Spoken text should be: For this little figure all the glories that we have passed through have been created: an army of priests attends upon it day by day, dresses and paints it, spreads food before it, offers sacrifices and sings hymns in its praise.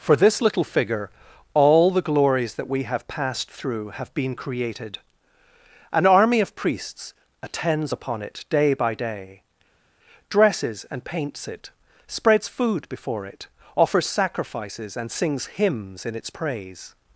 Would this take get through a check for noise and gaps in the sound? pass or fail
pass